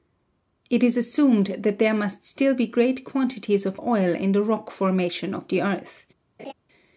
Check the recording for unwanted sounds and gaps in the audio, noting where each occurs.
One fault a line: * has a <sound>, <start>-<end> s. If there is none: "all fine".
* has a laugh, 6.4-6.5 s